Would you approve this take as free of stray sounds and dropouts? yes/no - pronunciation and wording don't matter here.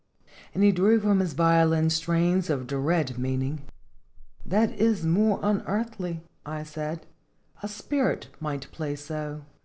yes